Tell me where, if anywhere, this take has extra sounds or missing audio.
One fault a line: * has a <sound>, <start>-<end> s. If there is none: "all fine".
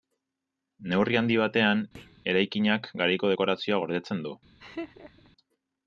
* has a thud, 1.9-2.2 s
* has a laugh, 4.6-5.3 s